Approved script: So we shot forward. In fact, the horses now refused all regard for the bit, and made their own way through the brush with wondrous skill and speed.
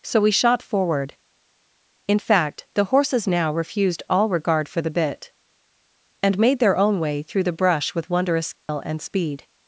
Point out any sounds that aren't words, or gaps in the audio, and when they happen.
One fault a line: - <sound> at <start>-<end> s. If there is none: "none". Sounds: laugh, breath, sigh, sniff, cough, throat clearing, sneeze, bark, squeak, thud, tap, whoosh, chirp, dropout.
- dropout at 8.6-8.7 s